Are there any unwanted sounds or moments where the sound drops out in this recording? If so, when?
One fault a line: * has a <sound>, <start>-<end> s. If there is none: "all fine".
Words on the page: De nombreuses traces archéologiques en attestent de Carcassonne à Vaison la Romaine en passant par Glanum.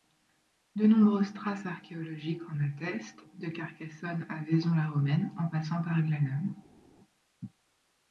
all fine